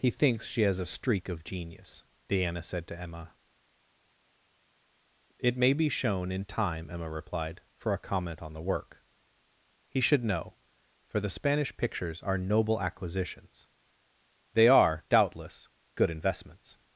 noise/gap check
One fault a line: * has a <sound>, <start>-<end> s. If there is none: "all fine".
all fine